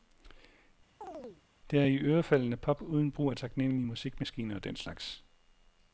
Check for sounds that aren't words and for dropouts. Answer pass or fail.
fail